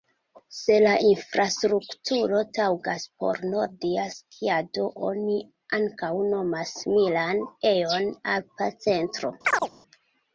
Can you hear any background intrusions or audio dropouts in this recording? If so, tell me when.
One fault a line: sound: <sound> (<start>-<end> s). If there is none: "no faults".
sound: chirp (9.4-9.7 s)